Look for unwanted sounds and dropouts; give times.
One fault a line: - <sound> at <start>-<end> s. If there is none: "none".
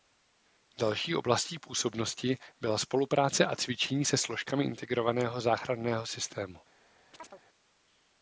- chirp at 7.1-7.4 s